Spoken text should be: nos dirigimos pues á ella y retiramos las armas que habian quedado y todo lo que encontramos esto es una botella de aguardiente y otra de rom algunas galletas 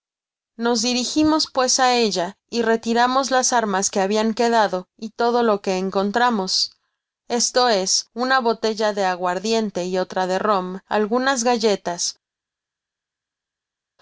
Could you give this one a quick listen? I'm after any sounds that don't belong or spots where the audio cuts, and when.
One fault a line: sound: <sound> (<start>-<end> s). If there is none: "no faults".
no faults